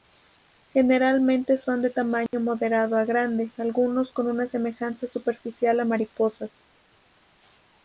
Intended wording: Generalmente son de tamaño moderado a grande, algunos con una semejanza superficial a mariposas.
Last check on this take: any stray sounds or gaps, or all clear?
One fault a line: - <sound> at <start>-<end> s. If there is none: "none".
- dropout at 2.3-2.3 s